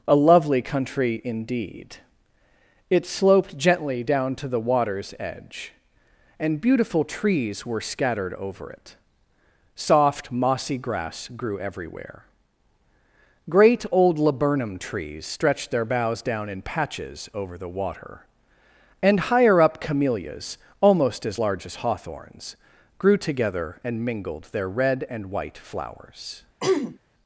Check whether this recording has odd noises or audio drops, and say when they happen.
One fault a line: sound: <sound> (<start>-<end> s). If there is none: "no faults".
sound: throat clearing (26.6-27.0 s)